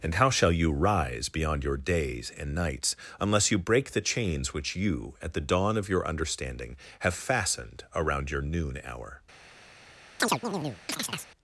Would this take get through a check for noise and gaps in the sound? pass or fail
fail